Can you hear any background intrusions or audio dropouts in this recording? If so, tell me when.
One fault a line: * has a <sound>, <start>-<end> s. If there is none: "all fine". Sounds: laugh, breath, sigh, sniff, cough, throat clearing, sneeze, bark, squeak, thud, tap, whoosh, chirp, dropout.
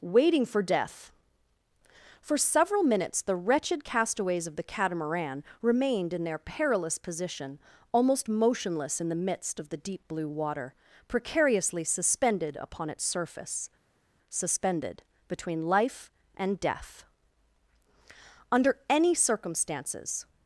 all fine